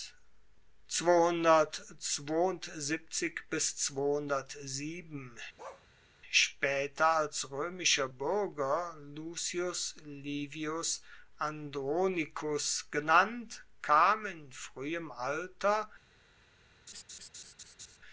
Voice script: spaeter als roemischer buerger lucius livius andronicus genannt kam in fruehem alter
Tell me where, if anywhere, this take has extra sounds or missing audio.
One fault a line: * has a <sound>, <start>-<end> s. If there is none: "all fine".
* has a bark, 5.6-5.9 s
* has a laugh, 16.9-18.0 s